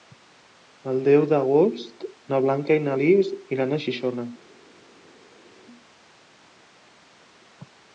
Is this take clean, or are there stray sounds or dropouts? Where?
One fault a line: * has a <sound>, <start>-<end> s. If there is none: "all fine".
all fine